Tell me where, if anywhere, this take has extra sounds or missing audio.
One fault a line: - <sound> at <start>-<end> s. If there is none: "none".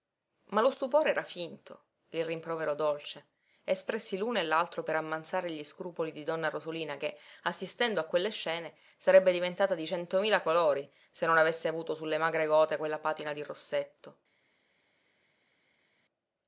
none